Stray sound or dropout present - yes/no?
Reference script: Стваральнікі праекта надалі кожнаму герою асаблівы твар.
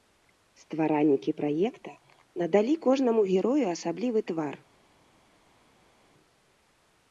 no